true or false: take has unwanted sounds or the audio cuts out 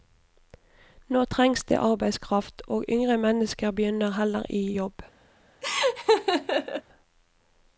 true